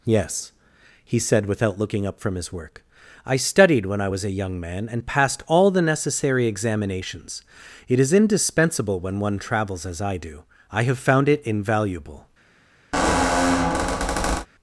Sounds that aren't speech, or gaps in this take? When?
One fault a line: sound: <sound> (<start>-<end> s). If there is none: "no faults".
sound: squeak (12.9-14.5 s)